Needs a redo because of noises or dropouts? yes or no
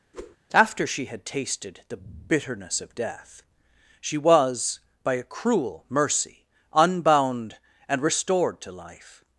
yes